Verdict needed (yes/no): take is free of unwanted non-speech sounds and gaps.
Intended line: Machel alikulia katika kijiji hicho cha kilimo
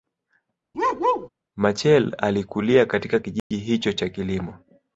no